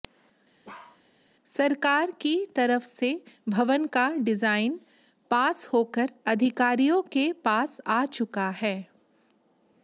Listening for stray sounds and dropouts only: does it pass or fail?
fail